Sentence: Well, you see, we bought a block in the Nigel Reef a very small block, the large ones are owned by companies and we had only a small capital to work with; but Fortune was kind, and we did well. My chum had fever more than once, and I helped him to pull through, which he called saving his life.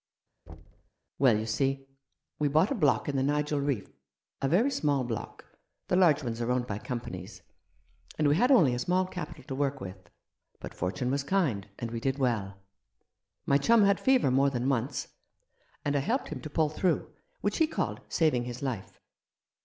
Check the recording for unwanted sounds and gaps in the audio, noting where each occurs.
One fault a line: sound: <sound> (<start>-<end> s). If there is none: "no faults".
sound: thud (0.5-0.9 s)